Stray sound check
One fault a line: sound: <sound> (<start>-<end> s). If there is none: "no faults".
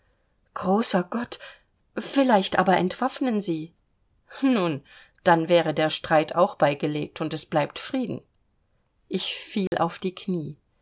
sound: dropout (9.7-9.7 s)